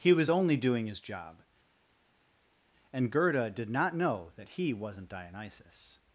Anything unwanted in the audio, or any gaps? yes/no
no